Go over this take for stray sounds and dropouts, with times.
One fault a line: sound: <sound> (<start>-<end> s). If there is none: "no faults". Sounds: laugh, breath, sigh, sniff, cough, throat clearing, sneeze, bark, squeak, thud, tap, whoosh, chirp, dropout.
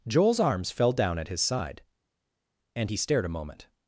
no faults